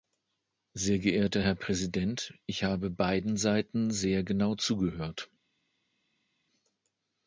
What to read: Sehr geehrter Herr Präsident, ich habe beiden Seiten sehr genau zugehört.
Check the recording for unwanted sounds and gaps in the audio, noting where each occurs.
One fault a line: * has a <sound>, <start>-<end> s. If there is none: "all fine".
all fine